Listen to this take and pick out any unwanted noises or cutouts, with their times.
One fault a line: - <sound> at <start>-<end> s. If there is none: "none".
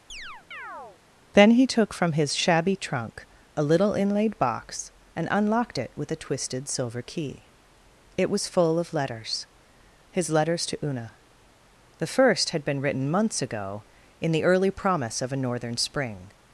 - chirp at 0.1-1.0 s